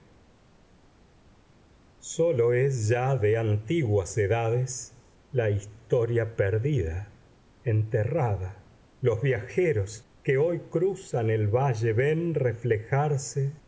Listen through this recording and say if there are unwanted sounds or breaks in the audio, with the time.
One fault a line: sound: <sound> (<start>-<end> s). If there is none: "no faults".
no faults